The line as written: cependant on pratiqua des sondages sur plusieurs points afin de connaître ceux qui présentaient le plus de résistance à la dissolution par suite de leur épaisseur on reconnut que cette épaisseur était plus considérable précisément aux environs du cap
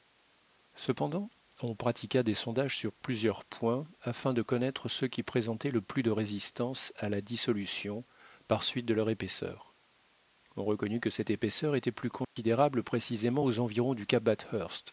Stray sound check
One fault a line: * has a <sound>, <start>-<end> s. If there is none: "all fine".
* has a dropout, 12.2-12.4 s